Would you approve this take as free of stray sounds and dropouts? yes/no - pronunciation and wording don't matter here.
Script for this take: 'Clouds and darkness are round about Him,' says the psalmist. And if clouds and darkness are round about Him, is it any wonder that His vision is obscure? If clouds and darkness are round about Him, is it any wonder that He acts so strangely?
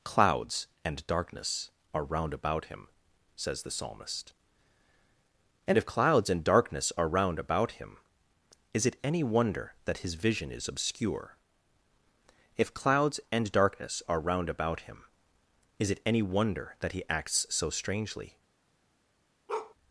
no